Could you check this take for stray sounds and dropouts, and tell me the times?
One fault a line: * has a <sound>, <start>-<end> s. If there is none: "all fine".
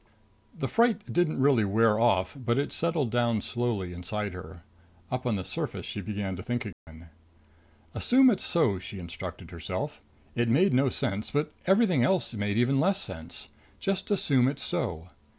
* has a dropout, 6.7-6.9 s